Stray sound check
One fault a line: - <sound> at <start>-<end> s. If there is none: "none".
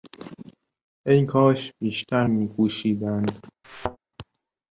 - thud at 3.6-4.0 s